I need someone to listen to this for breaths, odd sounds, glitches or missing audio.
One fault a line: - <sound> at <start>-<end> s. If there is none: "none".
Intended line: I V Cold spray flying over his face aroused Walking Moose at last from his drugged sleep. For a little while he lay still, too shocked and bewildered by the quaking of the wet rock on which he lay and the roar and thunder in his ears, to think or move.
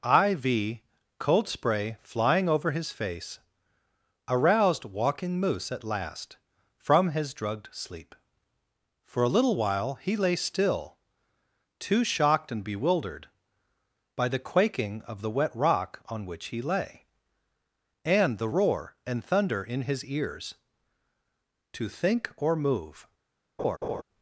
- laugh at 23.6-24.0 s